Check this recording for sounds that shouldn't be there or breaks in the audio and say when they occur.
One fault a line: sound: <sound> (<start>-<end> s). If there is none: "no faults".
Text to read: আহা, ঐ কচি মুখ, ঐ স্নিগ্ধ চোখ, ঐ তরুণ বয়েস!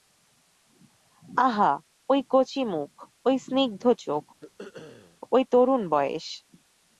sound: throat clearing (4.4-5.2 s)